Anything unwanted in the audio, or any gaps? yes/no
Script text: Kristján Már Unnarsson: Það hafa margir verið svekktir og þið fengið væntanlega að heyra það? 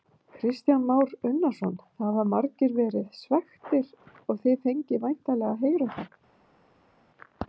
no